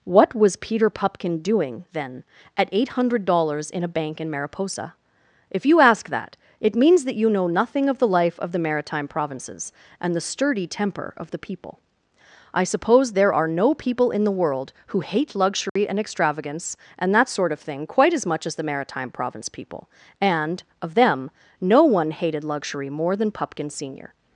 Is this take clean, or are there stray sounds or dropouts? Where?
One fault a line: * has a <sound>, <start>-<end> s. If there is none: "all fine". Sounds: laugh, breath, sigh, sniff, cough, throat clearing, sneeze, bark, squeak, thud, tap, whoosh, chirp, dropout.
* has a dropout, 15.7-15.8 s